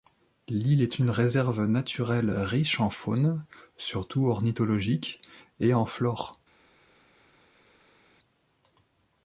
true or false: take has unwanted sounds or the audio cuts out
false